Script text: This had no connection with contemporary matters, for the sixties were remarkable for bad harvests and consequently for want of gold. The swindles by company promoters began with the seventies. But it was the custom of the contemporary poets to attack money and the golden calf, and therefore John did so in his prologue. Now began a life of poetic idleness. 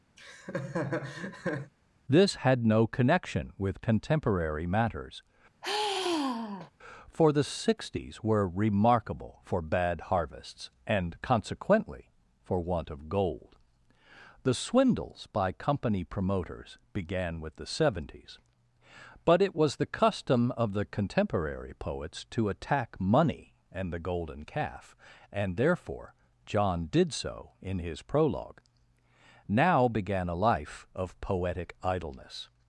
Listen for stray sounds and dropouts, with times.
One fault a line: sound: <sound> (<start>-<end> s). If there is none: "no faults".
sound: laugh (0.2-1.7 s)
sound: sigh (5.6-6.7 s)